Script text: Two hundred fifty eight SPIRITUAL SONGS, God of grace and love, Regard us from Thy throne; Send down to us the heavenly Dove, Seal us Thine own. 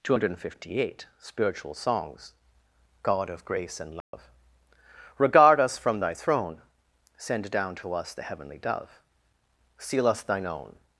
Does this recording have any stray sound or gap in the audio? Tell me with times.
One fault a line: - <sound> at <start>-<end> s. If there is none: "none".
- dropout at 4.0-4.1 s